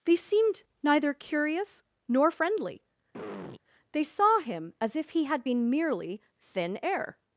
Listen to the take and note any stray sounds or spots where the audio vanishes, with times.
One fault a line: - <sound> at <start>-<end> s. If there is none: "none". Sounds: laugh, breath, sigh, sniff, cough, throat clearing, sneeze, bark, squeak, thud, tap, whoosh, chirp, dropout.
- throat clearing at 3.1-3.6 s